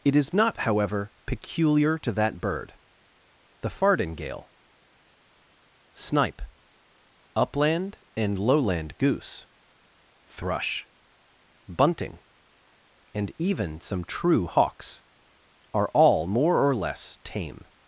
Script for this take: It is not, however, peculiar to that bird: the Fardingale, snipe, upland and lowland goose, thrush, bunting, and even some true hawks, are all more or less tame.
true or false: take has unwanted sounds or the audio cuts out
false